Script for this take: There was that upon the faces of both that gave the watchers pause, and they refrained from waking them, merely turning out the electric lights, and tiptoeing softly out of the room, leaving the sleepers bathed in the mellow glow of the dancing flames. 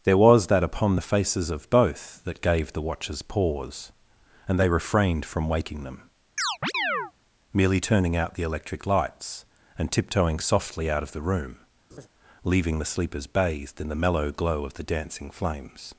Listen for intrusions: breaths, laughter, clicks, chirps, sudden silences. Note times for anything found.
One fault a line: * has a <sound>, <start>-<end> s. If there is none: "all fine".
* has a chirp, 6.4-7.1 s
* has a laugh, 11.9-12.1 s